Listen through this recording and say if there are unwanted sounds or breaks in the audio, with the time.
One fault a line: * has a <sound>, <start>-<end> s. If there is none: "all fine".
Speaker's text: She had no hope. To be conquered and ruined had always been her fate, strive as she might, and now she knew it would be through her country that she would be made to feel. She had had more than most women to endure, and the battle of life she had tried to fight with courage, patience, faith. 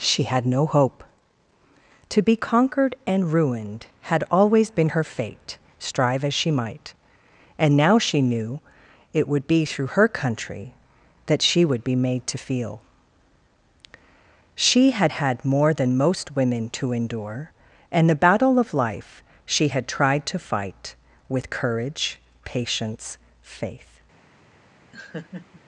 * has a laugh, 24.9-25.6 s